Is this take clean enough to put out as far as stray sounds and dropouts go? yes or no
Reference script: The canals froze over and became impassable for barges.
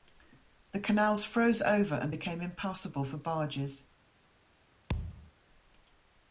no